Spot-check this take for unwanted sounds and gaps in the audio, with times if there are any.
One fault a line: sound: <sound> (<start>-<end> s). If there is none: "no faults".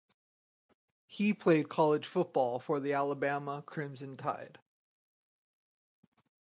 no faults